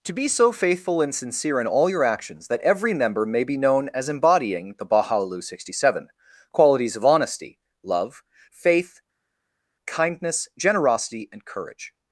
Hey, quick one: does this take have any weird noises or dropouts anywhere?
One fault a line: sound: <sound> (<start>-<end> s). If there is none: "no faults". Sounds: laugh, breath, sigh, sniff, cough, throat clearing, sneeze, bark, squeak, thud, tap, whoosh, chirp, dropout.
no faults